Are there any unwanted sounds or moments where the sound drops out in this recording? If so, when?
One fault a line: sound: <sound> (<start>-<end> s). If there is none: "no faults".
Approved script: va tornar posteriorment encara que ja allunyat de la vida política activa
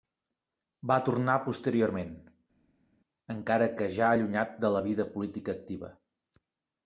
no faults